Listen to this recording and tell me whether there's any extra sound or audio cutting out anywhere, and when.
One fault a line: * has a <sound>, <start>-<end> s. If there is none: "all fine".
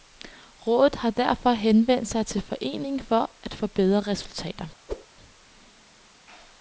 * has a whoosh, 4.9-5.1 s